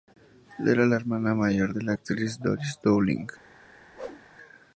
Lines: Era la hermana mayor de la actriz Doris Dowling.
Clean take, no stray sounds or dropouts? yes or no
no